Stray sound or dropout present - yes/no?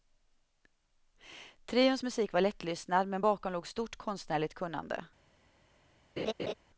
yes